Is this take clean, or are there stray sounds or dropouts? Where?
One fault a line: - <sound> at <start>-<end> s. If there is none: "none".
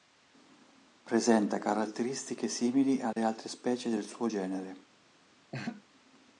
- dropout at 3.1-3.2 s
- laugh at 5.5-5.8 s